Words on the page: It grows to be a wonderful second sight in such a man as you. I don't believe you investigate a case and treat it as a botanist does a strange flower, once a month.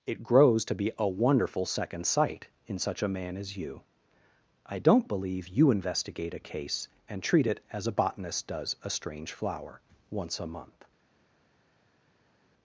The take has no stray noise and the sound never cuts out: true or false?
true